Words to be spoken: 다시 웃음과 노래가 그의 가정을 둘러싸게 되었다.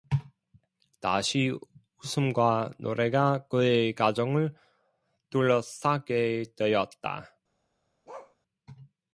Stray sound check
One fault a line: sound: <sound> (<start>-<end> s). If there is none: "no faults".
sound: bark (8.1-8.4 s)